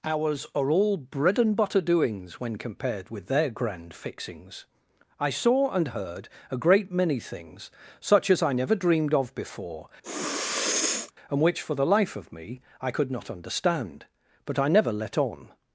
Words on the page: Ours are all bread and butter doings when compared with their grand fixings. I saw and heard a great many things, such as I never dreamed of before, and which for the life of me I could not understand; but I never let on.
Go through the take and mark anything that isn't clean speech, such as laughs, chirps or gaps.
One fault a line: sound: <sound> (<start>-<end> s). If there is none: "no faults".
sound: sniff (10.0-11.1 s)